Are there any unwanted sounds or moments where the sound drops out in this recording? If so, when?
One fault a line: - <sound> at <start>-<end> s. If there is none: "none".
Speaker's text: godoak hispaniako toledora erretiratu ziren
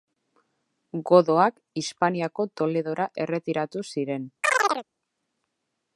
- chirp at 4.4-4.9 s